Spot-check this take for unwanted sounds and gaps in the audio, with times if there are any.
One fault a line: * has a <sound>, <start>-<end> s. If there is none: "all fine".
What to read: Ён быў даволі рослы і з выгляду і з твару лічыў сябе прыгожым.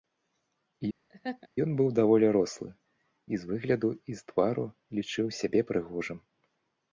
* has a laugh, 1.1-1.5 s